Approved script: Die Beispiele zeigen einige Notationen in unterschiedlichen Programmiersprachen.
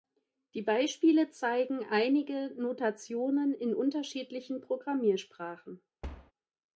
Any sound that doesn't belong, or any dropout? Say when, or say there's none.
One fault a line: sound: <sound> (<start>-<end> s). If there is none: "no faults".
sound: thud (6.0-6.3 s)